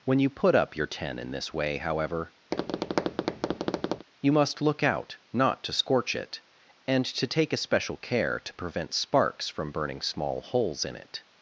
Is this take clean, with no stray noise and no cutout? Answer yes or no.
no